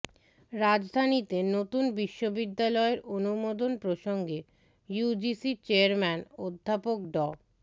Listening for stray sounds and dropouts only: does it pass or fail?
pass